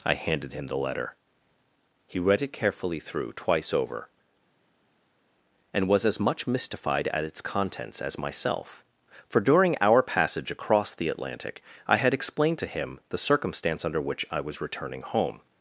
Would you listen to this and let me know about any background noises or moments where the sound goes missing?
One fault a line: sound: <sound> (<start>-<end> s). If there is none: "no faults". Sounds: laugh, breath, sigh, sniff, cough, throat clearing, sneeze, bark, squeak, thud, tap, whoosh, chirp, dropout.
no faults